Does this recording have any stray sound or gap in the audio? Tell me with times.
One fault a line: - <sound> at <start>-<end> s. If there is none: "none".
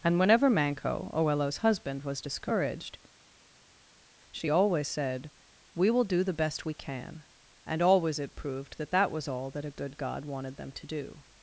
none